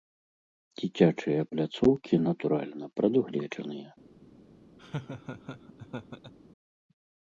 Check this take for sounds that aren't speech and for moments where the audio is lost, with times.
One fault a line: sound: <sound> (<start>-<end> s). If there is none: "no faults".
sound: laugh (4.8-6.3 s)